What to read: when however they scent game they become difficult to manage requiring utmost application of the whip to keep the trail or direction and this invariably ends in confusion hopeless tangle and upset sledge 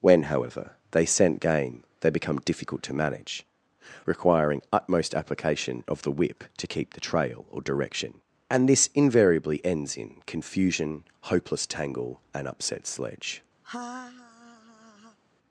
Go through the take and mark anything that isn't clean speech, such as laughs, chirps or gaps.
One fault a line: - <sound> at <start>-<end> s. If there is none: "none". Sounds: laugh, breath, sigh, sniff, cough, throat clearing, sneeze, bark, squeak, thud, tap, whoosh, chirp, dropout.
- laugh at 13.6-15.2 s